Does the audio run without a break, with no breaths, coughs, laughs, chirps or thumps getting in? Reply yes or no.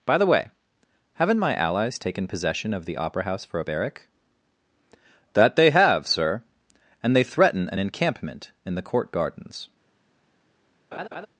no